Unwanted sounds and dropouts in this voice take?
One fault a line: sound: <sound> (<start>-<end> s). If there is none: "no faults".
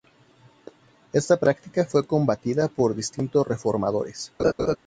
sound: laugh (4.4-4.8 s)